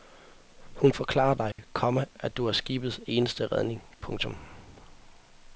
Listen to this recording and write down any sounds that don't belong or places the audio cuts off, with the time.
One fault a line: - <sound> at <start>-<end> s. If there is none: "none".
- dropout at 1.5-1.6 s